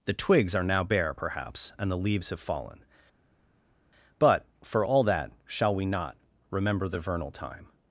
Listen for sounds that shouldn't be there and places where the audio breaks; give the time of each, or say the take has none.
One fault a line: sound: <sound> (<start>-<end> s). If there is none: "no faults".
no faults